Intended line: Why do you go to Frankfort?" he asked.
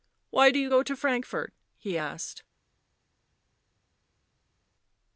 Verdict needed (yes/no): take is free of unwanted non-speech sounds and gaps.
yes